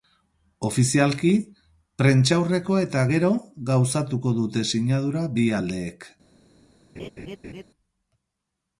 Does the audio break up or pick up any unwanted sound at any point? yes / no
yes